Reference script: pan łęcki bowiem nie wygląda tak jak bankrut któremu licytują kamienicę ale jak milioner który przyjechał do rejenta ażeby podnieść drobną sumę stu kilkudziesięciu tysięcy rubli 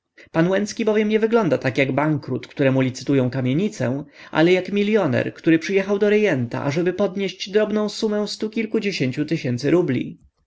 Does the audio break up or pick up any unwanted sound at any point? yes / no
no